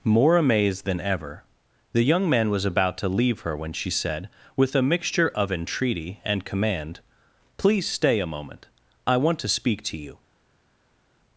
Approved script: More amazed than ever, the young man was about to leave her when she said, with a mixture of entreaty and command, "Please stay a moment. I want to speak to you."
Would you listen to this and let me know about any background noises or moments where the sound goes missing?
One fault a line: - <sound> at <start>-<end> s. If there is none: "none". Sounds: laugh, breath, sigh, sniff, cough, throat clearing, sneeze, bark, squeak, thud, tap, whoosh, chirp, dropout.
none